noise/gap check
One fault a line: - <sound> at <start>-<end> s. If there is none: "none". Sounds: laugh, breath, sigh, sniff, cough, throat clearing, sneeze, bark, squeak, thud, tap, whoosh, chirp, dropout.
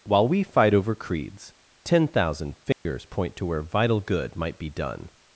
- dropout at 2.7-2.9 s